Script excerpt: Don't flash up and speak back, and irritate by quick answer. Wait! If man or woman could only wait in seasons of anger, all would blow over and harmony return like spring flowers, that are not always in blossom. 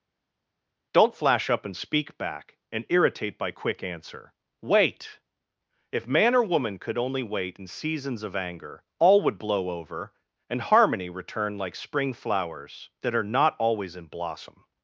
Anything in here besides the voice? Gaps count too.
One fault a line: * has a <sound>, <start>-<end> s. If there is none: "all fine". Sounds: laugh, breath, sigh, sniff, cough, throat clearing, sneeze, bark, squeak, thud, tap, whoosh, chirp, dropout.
all fine